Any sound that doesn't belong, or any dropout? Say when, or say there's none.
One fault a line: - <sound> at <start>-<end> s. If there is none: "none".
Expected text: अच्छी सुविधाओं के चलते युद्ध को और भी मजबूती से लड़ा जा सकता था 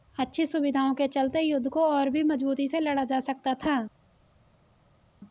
none